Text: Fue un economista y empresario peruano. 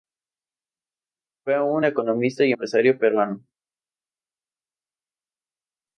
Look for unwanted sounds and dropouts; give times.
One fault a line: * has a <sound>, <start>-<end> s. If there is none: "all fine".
all fine